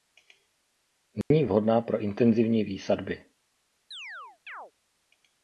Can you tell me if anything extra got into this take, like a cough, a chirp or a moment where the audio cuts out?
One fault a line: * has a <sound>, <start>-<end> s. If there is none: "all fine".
* has a dropout, 1.2-1.3 s
* has a chirp, 3.9-4.7 s